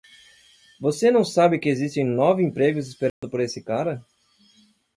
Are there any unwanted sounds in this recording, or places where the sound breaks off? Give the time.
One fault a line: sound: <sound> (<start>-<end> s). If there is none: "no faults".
sound: dropout (3.1-3.2 s)